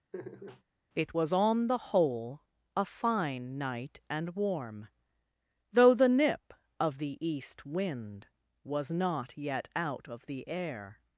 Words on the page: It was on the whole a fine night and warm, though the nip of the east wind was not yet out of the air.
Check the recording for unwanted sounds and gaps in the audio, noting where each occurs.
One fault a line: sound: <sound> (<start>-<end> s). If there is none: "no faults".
sound: laugh (0.1-0.6 s)